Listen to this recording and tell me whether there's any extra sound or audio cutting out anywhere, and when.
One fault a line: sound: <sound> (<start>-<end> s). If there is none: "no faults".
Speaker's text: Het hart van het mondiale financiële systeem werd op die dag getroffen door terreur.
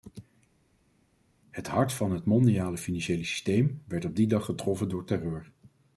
no faults